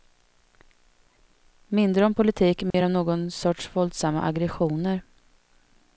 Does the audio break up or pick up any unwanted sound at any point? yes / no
yes